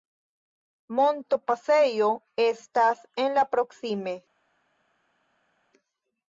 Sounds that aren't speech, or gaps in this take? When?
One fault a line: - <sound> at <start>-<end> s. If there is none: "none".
none